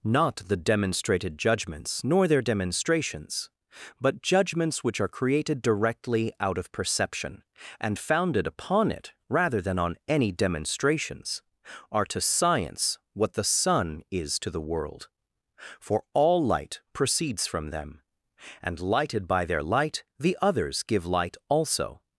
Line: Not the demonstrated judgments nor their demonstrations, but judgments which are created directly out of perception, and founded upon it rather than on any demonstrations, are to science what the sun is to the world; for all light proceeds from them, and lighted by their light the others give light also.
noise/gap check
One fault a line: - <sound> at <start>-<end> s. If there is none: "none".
none